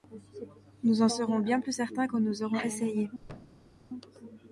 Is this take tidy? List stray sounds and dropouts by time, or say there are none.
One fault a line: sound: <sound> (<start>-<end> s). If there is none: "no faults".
sound: thud (3.2-3.7 s)